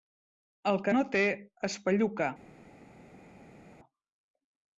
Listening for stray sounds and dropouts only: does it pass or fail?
pass